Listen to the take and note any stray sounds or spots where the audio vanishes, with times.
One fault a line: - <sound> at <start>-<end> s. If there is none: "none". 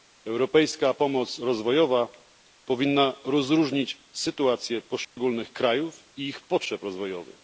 - dropout at 5.0-5.2 s